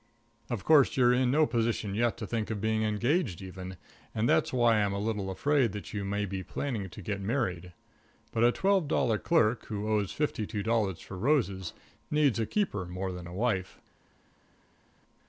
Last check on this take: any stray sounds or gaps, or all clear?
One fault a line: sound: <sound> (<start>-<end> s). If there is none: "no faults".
no faults